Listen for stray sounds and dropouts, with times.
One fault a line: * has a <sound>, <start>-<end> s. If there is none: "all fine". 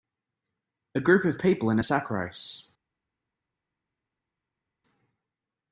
all fine